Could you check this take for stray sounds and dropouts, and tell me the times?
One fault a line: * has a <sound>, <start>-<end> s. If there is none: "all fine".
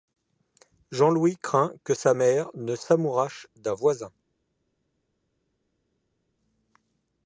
all fine